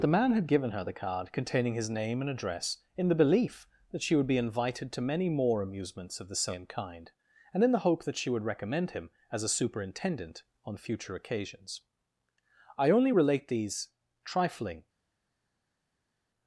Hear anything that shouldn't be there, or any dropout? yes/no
no